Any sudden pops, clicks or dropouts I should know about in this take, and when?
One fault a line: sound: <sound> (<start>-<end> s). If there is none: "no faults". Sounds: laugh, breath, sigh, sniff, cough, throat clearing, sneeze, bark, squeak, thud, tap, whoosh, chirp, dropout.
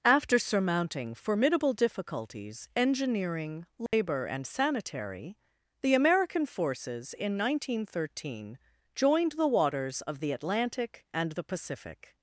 sound: dropout (3.9-3.9 s)